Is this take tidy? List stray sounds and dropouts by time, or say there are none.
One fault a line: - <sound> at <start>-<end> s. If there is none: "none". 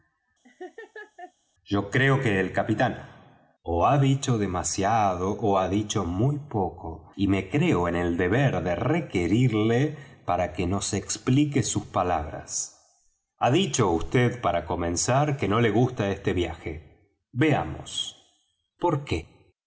- laugh at 0.4-1.3 s